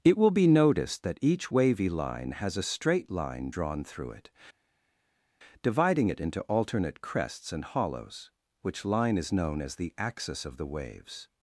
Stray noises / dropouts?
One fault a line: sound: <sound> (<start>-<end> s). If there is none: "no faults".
no faults